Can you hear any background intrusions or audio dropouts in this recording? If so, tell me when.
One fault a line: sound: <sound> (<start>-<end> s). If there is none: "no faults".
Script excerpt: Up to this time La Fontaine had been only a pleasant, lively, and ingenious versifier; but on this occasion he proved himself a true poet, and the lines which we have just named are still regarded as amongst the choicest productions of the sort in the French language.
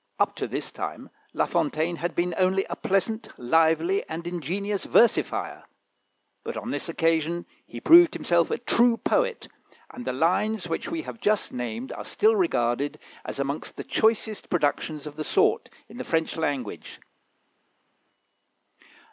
no faults